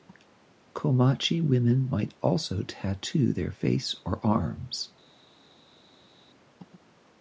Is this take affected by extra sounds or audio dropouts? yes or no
no